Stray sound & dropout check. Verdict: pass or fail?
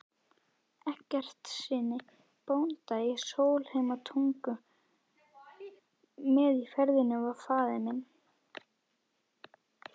fail